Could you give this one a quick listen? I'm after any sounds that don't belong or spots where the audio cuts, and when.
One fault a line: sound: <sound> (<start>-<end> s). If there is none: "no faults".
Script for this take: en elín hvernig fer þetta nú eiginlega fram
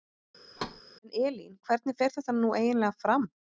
sound: thud (0.6-0.8 s)